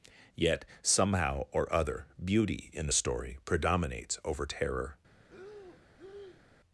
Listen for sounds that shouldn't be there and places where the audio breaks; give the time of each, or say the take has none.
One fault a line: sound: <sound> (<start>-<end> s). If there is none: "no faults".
sound: breath (5.2-6.4 s)